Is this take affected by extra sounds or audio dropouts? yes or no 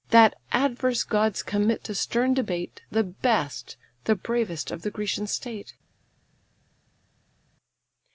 no